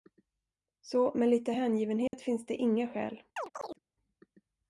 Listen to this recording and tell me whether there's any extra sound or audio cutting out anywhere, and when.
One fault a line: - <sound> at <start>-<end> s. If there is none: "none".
- dropout at 2.1-2.1 s
- chirp at 3.4-3.8 s